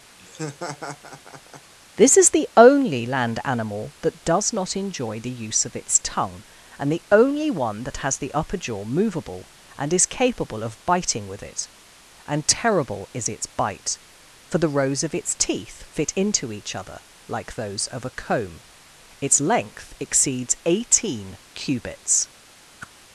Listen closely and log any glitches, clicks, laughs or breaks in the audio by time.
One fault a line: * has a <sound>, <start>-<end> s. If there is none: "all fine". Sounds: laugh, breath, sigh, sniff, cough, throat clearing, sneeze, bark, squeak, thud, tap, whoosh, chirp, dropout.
* has a laugh, 0.2-1.7 s
* has a whoosh, 22.8-22.9 s